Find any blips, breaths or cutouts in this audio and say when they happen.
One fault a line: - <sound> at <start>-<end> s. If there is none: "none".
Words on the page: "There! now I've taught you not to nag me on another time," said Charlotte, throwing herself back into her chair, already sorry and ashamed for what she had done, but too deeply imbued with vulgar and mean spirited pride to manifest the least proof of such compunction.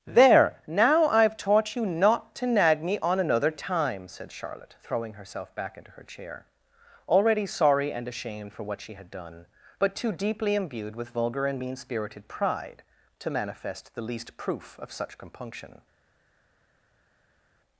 none